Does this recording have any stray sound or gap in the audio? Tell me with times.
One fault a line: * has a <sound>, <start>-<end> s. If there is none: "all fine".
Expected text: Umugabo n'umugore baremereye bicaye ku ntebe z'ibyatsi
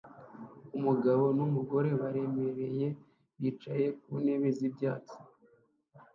all fine